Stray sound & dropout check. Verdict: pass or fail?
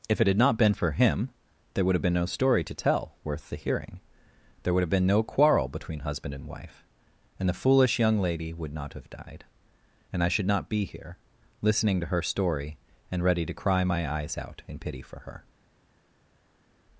pass